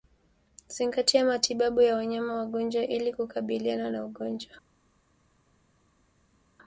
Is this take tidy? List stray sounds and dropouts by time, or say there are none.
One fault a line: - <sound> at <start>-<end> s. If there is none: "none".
none